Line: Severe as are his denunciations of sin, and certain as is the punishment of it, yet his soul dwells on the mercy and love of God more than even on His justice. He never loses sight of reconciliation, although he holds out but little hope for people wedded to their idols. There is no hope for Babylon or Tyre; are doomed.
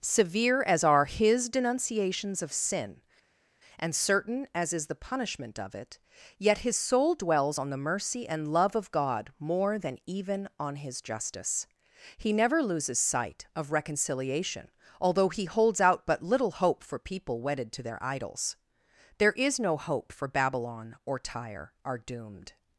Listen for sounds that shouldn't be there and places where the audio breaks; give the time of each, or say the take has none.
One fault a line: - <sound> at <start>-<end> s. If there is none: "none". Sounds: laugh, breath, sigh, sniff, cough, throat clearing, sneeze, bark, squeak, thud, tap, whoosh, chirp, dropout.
none